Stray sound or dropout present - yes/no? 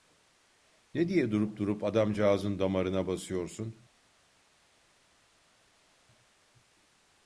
no